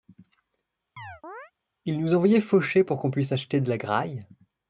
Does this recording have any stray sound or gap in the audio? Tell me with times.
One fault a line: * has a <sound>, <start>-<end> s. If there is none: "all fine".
* has a chirp, 1.0-1.5 s